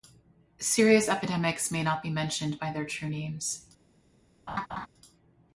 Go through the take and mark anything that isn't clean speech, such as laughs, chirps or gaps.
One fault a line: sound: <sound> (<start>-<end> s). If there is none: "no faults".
sound: laugh (4.5-4.9 s)